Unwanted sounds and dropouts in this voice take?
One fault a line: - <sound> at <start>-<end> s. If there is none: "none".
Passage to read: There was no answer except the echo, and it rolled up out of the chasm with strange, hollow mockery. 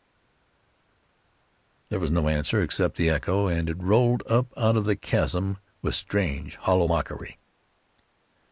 none